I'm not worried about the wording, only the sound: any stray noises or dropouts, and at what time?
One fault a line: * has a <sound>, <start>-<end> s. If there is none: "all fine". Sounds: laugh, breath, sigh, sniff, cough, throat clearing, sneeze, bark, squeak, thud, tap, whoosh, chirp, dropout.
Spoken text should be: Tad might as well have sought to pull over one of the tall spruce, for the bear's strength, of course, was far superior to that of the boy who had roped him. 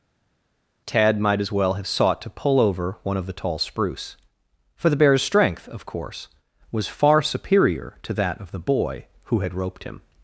all fine